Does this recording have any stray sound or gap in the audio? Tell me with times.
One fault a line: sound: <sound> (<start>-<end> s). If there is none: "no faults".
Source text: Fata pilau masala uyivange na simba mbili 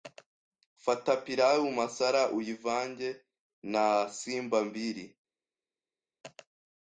no faults